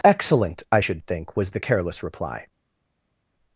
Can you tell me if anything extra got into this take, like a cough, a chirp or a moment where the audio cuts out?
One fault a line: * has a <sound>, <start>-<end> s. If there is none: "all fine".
all fine